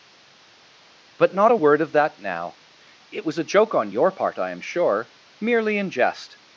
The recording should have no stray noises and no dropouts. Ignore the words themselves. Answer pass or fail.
pass